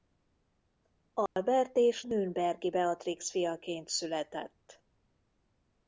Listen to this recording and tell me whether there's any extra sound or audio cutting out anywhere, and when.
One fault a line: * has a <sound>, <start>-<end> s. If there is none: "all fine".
* has a dropout, 1.3-1.4 s